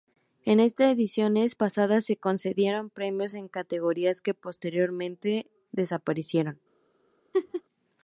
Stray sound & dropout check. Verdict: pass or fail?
fail